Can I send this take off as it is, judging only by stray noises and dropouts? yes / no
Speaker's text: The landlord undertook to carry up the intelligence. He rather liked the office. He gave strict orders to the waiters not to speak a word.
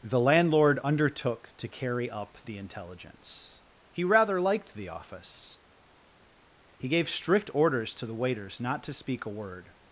yes